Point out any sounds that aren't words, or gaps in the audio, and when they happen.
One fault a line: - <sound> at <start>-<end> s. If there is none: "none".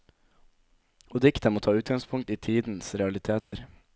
- dropout at 3.4-3.5 s